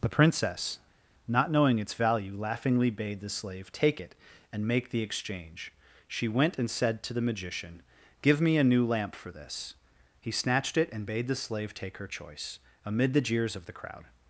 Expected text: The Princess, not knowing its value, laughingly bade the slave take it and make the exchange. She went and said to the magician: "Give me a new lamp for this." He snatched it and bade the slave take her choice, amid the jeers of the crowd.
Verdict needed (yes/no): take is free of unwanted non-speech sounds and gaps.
yes